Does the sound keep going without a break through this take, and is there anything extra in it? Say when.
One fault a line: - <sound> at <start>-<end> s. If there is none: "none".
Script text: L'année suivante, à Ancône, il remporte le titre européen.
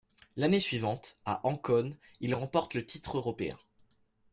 none